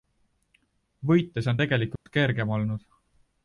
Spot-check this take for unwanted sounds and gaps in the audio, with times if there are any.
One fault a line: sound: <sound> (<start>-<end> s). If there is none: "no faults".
sound: dropout (2.0-2.1 s)